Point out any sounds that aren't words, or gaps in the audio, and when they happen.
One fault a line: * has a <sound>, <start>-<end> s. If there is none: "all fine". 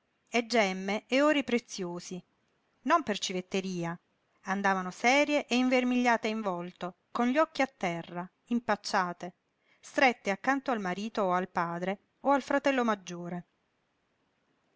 all fine